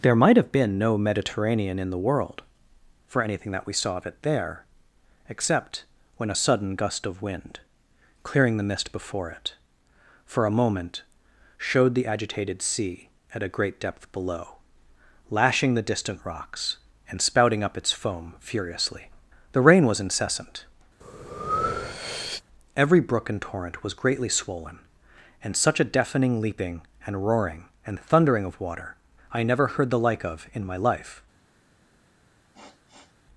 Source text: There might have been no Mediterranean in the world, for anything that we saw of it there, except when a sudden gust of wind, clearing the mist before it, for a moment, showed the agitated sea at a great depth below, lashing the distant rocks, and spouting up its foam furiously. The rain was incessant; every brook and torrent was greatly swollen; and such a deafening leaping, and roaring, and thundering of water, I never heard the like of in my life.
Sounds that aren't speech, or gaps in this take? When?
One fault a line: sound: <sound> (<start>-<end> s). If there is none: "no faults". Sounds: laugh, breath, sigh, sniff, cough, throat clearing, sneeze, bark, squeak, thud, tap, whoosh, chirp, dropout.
sound: breath (21.0-22.4 s)
sound: sniff (32.5-33.2 s)